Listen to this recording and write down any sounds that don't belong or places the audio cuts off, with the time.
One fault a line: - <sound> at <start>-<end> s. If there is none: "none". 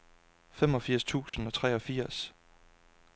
- dropout at 1.3-1.3 s